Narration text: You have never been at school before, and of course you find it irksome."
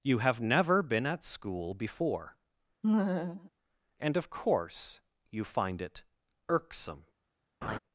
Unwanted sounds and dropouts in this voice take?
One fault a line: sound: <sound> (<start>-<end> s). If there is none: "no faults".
sound: laugh (2.8-3.5 s)
sound: laugh (7.6-7.8 s)